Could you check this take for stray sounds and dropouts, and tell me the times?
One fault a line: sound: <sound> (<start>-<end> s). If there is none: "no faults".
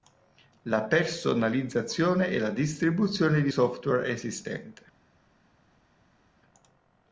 no faults